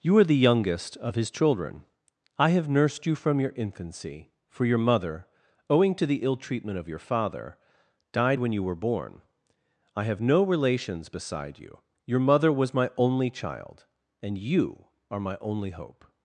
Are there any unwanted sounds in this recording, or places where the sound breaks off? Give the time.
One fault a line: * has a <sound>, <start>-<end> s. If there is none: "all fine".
all fine